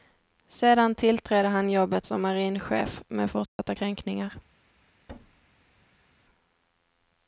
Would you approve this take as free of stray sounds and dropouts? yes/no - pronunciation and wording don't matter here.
no